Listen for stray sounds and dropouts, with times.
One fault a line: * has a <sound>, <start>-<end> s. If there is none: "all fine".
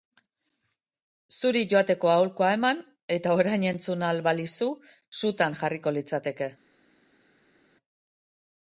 all fine